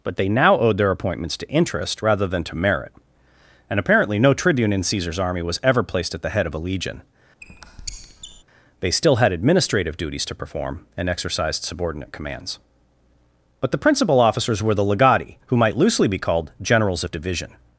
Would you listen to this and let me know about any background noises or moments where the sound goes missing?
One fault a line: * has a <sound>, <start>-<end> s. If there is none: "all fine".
* has a squeak, 7.4-8.4 s